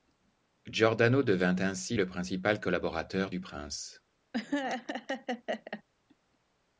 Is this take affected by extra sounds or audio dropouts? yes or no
yes